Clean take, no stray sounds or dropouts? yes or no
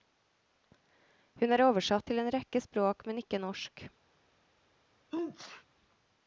no